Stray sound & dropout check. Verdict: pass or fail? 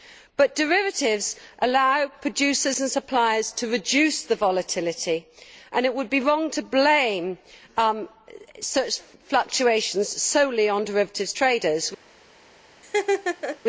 fail